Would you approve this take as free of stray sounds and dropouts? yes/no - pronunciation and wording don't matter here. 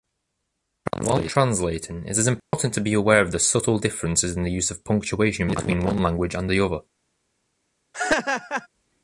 no